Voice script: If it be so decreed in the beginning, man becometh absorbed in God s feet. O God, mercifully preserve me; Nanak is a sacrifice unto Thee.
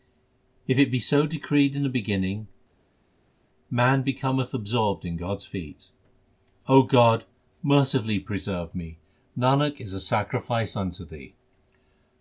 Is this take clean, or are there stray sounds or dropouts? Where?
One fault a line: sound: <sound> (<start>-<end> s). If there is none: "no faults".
no faults